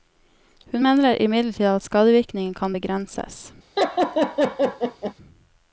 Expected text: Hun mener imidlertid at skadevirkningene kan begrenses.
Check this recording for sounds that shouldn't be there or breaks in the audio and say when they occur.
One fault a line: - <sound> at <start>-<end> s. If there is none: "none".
- laugh at 3.8-5.1 s